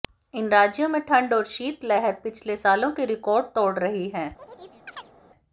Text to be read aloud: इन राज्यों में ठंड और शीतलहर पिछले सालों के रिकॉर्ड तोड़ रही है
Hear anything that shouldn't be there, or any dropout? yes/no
yes